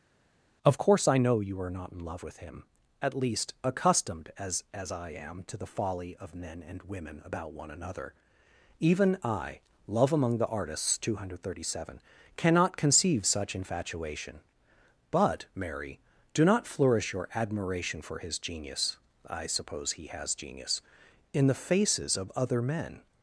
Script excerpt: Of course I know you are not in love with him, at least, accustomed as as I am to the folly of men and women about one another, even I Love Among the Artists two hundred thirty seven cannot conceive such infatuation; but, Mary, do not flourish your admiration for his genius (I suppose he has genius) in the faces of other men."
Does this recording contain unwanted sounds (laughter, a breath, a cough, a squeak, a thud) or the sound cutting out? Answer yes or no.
no